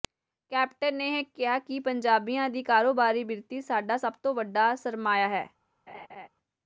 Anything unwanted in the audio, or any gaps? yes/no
yes